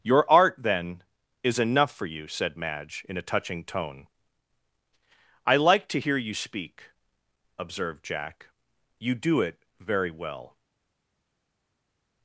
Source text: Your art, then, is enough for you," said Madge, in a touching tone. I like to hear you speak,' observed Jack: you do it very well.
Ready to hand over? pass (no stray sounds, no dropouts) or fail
pass